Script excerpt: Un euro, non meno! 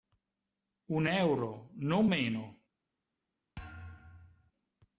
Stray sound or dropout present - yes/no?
yes